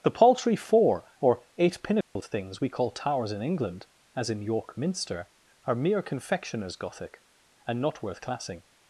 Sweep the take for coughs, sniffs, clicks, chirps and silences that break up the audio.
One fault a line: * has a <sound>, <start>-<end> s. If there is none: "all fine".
* has a dropout, 2.0-2.2 s